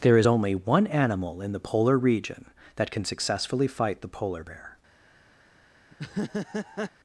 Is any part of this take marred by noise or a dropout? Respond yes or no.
yes